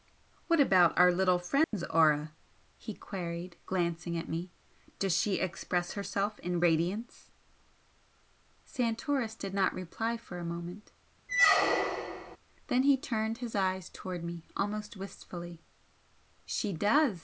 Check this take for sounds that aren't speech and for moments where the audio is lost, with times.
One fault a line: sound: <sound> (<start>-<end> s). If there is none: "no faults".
sound: dropout (1.6-1.7 s)
sound: squeak (11.3-12.4 s)